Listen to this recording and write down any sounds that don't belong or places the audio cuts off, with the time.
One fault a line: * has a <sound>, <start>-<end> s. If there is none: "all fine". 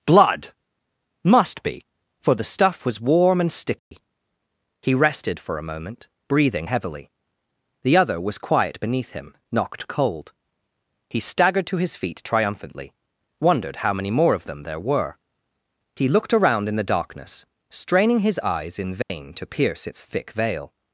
* has a dropout, 3.8-3.9 s
* has a dropout, 19.0-19.1 s